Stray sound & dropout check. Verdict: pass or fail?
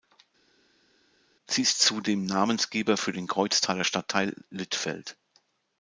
pass